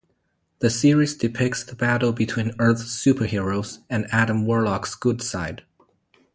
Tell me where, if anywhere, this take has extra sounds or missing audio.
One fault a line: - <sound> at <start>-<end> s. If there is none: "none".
none